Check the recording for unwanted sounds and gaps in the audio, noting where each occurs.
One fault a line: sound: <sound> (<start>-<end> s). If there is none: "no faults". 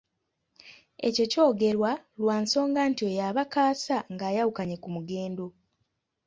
no faults